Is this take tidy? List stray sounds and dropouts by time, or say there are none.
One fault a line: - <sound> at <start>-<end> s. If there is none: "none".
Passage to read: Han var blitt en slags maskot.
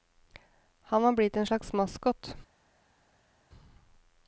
none